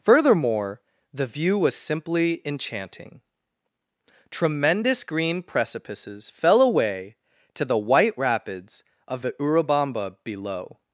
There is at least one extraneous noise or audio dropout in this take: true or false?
false